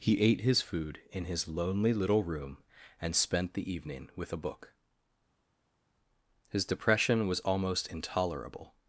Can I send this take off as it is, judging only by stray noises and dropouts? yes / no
yes